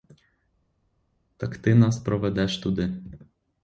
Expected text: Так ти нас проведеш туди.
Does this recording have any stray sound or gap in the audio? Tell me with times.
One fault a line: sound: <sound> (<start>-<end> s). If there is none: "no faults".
no faults